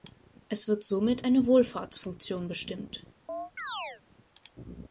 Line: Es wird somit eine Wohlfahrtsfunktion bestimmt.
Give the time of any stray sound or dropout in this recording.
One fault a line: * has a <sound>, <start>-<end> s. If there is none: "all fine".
* has a chirp, 3.3-4.0 s